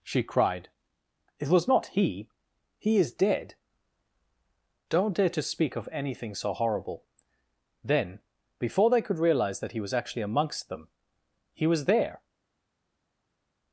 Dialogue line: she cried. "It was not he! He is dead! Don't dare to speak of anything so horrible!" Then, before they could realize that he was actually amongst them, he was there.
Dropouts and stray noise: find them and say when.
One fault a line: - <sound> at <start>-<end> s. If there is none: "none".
none